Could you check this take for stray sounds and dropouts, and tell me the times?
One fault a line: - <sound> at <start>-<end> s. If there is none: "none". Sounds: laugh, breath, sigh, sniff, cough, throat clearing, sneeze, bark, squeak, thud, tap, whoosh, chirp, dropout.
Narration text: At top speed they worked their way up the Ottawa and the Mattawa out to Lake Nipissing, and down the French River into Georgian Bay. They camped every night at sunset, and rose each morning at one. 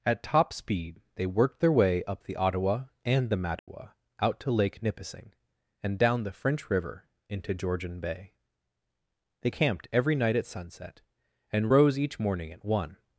- dropout at 3.6-3.7 s